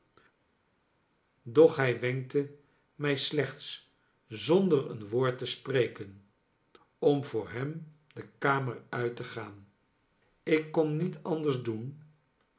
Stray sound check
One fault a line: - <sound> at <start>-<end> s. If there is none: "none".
none